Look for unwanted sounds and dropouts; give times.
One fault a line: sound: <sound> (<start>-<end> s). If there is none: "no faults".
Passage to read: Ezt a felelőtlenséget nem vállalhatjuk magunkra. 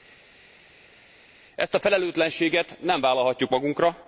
no faults